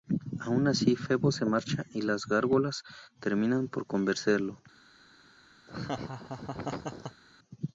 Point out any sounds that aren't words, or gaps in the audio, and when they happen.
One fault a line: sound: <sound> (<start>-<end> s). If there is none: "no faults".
sound: laugh (5.7-7.2 s)